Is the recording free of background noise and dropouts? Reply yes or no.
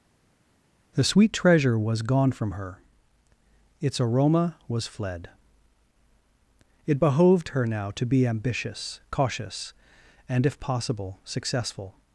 yes